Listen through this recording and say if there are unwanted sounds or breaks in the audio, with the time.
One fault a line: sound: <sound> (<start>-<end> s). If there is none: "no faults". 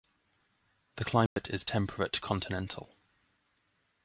sound: dropout (1.3-1.4 s)